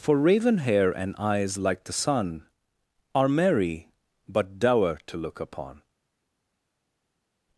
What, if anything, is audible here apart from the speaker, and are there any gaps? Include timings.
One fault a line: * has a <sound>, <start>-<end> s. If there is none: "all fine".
all fine